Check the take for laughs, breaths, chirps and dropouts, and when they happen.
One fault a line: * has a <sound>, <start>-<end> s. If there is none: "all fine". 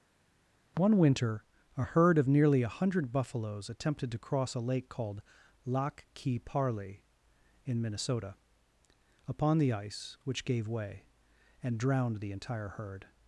all fine